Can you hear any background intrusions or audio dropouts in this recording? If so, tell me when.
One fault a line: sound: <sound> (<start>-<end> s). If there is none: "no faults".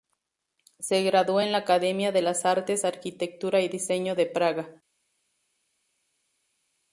no faults